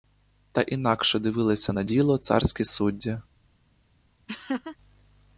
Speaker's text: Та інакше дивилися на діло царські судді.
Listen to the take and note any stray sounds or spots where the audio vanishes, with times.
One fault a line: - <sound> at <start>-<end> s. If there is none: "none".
- laugh at 4.3-4.8 s